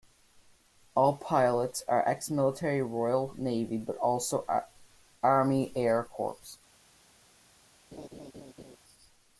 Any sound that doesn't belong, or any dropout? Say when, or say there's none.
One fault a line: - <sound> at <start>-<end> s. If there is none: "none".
- laugh at 7.9-8.8 s